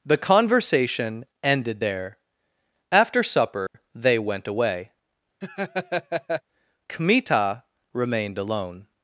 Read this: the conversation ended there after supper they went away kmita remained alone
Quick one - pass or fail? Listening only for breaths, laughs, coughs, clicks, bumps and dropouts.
fail